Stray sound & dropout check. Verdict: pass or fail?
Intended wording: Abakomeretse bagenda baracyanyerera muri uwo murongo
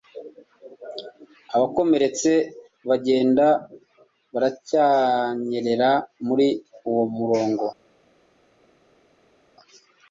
pass